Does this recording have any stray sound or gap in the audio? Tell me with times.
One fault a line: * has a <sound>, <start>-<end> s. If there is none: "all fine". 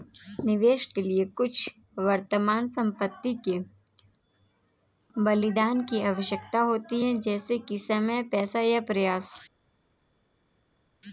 all fine